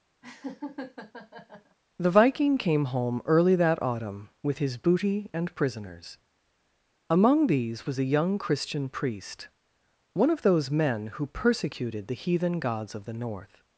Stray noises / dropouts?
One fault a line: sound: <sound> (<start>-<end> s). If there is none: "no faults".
sound: laugh (0.2-1.8 s)